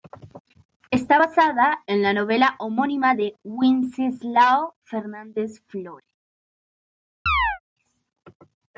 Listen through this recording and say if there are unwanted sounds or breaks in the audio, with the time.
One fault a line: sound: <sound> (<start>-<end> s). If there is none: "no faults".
sound: chirp (7.3-7.6 s)